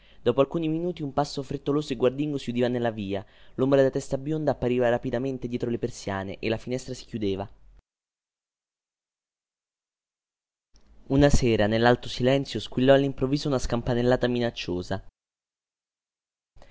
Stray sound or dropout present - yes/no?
no